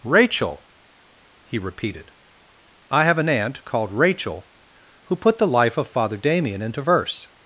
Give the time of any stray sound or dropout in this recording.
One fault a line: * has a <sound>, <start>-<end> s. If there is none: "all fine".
all fine